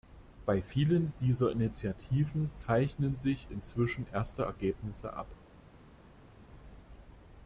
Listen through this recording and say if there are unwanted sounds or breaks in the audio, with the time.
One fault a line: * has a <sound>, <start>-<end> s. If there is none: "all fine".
all fine